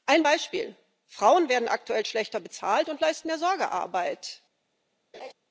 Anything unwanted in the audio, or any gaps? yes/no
yes